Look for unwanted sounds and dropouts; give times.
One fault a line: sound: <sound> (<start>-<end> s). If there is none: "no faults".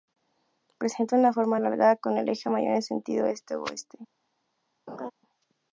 sound: laugh (4.9-5.1 s)